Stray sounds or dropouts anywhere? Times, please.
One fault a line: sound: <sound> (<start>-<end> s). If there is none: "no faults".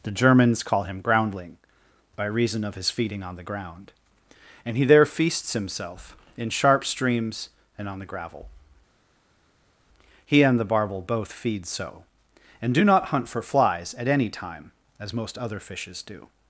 no faults